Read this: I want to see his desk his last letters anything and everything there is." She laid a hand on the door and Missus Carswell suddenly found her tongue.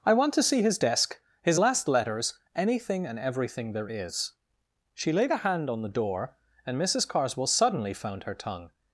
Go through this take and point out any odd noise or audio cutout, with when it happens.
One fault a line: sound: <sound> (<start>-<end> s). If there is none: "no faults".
no faults